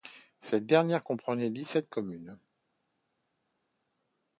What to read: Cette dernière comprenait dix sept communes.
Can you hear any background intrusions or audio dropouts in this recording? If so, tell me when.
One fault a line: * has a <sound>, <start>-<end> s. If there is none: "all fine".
all fine